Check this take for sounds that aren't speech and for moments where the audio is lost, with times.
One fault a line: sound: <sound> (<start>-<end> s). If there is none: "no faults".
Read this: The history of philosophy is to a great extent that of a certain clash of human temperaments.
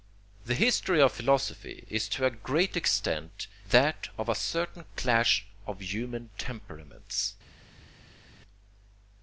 no faults